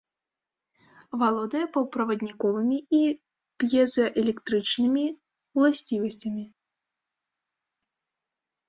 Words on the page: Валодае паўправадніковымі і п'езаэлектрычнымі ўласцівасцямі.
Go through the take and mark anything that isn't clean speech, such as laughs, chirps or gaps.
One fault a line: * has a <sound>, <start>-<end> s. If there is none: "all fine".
all fine